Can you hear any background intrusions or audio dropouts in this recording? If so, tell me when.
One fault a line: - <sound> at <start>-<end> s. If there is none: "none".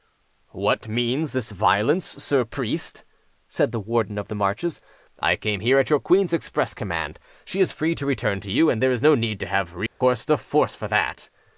- dropout at 9.9-10.0 s